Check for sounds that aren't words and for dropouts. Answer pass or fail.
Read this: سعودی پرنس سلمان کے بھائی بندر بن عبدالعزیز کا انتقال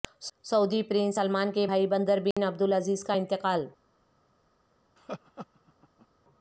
fail